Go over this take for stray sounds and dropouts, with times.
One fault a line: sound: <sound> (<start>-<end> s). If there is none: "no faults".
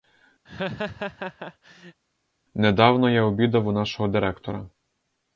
sound: laugh (0.4-2.0 s)